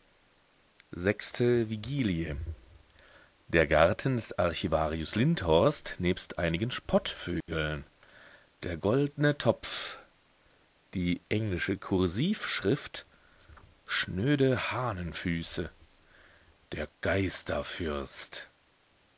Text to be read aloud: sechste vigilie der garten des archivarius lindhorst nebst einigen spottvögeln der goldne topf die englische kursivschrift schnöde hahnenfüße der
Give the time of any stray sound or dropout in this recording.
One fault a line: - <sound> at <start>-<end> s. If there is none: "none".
- dropout at 7.4-7.5 s